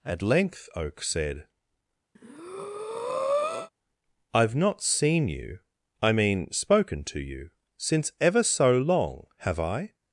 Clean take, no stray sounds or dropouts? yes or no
no